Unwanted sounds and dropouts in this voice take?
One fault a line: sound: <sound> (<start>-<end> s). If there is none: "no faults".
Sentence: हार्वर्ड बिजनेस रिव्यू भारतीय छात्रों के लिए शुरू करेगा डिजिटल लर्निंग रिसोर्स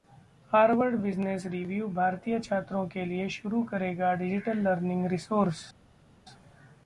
no faults